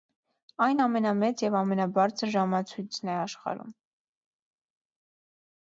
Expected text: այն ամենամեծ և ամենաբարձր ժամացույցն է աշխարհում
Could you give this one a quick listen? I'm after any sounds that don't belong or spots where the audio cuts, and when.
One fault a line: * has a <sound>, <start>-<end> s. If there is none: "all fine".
all fine